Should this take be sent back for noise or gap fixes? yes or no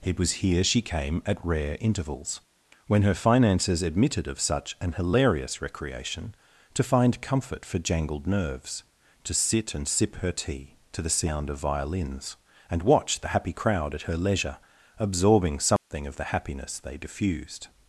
yes